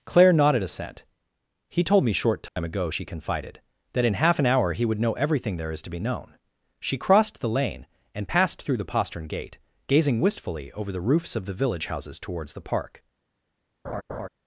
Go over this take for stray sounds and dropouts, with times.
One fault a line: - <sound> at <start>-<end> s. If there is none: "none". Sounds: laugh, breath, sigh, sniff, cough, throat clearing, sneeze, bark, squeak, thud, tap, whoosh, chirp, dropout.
- dropout at 2.5-2.6 s
- laugh at 13.8-14.3 s